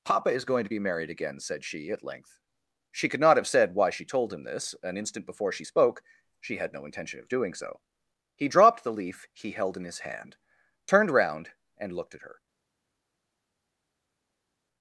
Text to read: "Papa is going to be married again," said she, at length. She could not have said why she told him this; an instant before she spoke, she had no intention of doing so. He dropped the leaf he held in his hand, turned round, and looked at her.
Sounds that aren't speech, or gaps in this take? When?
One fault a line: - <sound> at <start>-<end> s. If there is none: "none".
none